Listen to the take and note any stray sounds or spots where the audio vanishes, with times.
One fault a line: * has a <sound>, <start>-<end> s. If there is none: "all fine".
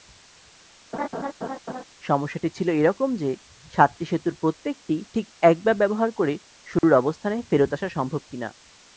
* has a laugh, 0.9-1.8 s
* has a dropout, 6.8-6.8 s